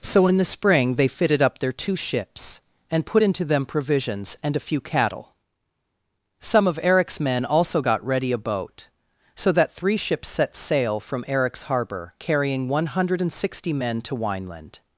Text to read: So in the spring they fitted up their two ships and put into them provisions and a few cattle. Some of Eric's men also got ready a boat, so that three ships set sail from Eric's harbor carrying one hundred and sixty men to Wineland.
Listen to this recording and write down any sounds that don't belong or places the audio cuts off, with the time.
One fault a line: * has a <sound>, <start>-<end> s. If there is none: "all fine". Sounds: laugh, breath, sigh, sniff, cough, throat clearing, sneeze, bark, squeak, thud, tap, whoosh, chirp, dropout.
all fine